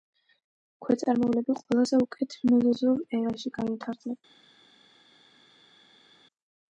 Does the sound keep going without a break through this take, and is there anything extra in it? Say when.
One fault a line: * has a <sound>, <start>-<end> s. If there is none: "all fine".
all fine